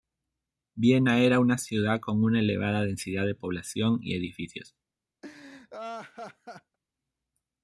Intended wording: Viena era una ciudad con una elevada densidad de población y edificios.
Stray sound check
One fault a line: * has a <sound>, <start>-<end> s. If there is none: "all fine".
* has a laugh, 5.2-6.8 s